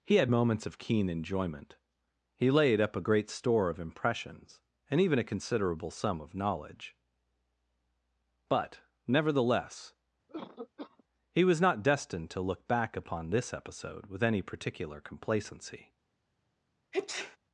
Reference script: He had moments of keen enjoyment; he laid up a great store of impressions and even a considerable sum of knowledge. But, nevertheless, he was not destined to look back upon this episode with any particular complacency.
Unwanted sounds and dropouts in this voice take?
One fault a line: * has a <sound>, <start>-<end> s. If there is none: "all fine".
* has a cough, 10.3-11.0 s
* has a sneeze, 16.9-17.4 s